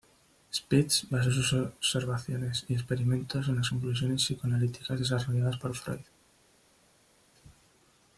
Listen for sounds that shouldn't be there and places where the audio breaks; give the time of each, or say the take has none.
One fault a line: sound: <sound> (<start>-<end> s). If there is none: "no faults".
no faults